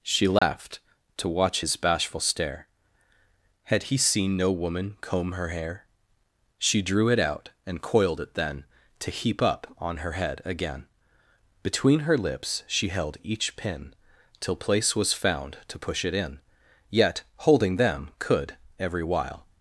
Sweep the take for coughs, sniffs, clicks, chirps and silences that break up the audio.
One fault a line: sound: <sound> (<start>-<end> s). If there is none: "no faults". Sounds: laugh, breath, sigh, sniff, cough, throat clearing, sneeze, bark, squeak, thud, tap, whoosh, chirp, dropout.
sound: dropout (0.4-0.4 s)